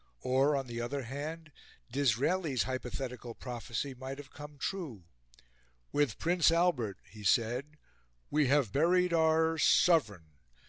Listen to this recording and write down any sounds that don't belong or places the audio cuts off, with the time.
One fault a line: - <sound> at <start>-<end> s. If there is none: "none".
none